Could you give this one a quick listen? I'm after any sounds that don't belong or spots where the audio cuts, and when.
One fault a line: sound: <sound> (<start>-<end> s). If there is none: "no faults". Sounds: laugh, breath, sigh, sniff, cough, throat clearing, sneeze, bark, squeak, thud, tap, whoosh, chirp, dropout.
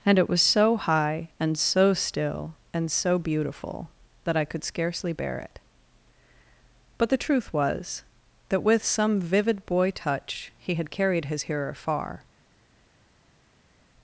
no faults